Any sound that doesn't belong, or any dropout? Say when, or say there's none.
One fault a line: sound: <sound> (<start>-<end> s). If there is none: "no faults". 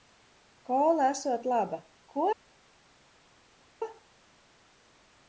no faults